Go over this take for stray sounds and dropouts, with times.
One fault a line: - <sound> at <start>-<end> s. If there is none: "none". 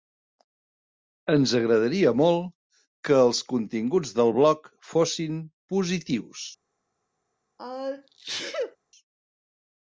- sneeze at 7.6-8.8 s